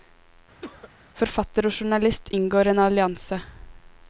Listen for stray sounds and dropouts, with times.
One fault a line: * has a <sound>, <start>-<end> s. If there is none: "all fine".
* has a cough, 0.6-0.9 s